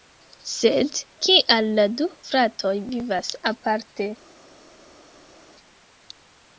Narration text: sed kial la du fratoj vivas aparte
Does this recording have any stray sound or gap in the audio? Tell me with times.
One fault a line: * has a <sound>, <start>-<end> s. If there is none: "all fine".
all fine